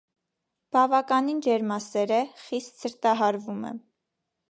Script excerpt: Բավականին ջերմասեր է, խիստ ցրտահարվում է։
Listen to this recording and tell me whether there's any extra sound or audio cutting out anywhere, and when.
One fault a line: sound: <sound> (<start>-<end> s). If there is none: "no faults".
no faults